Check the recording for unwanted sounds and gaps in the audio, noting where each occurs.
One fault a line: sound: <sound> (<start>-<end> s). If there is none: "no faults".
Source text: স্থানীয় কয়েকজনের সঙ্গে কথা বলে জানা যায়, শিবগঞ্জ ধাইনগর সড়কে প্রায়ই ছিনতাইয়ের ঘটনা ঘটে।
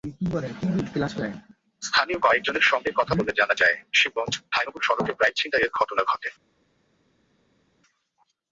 no faults